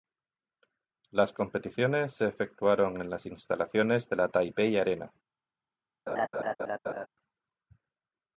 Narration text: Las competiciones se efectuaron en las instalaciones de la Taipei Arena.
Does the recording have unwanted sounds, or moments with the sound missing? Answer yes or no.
yes